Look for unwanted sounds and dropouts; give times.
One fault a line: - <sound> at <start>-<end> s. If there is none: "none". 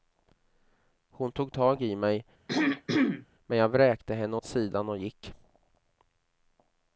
- throat clearing at 2.5-3.3 s